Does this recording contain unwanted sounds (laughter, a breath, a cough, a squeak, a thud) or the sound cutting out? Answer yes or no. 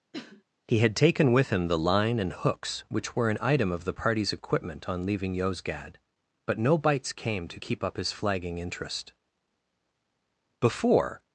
yes